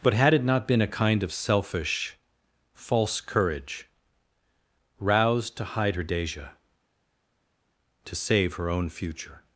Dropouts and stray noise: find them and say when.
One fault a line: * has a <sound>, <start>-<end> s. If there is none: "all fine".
all fine